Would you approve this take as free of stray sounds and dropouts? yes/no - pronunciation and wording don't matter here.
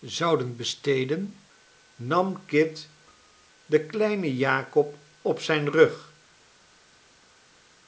yes